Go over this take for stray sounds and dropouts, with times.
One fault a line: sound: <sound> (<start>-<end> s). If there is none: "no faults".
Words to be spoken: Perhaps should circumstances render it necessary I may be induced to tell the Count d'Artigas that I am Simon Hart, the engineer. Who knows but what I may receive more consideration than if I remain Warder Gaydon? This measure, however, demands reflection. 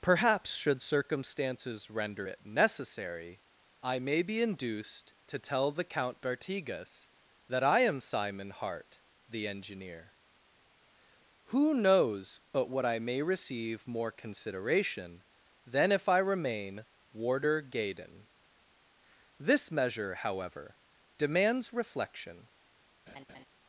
sound: laugh (23.1-23.5 s)